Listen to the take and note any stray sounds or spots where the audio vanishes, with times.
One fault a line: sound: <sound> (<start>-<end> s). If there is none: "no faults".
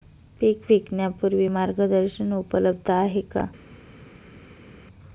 no faults